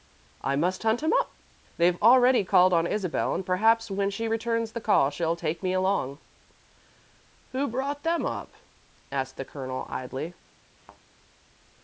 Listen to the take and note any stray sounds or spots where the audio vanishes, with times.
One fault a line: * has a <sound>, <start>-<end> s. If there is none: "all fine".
* has a thud, 10.8-11.0 s